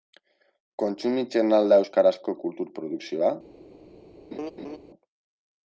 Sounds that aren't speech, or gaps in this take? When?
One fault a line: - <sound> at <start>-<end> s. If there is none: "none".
- laugh at 4.3-4.8 s